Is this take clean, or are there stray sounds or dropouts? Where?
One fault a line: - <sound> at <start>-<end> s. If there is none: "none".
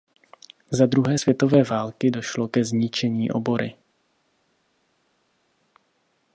none